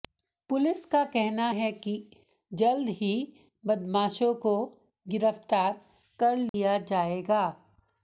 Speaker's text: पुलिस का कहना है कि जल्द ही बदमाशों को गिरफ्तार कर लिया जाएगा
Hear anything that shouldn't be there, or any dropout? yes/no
yes